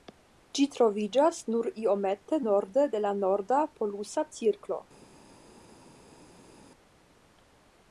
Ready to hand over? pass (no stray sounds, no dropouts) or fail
pass